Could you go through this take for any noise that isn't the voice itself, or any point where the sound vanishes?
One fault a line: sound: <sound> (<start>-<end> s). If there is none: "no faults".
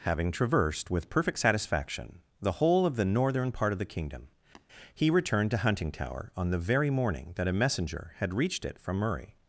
sound: tap (4.5-4.7 s)